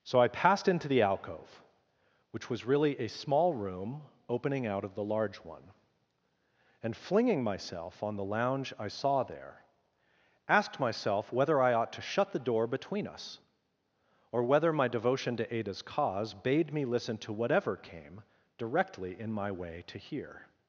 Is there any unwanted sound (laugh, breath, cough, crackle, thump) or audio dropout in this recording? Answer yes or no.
no